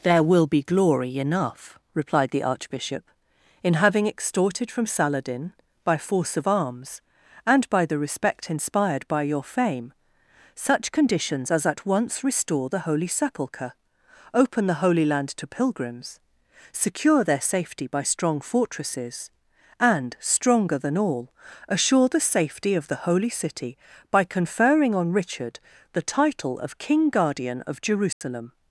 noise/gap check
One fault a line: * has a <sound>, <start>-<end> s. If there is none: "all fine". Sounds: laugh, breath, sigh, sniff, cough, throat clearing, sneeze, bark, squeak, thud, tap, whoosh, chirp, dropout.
* has a dropout, 28.1-28.2 s